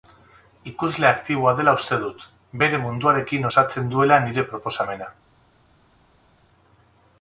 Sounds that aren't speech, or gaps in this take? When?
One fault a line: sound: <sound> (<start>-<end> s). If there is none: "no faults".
no faults